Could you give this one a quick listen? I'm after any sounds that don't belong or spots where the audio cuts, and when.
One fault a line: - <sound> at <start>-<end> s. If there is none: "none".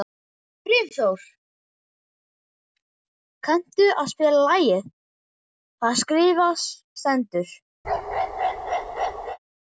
- bark at 7.8-9.4 s